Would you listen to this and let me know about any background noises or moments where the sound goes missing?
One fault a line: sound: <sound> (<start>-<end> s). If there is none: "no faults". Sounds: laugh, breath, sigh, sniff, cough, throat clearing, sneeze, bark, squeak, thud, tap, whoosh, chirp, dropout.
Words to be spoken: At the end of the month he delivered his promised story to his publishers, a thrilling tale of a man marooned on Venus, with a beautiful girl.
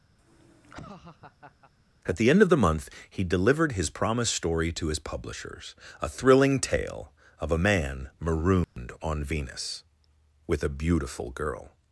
sound: laugh (0.2-1.7 s)
sound: dropout (8.6-8.8 s)